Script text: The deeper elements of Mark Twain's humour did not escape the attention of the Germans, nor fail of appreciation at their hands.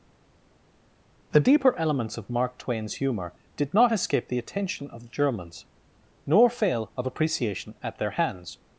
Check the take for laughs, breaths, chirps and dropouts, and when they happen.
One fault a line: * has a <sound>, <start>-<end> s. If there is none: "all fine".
all fine